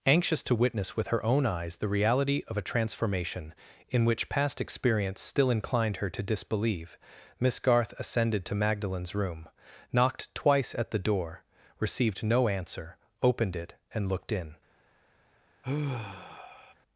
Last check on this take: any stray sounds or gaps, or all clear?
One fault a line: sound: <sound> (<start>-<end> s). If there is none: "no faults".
sound: sigh (15.6-16.7 s)